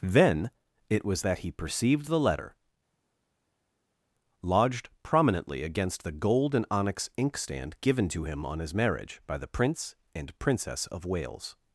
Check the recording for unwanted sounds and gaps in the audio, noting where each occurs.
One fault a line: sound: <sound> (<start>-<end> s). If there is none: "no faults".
no faults